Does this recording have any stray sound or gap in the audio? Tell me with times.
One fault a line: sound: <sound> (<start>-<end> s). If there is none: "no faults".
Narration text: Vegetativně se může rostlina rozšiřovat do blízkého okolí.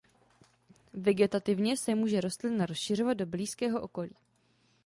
no faults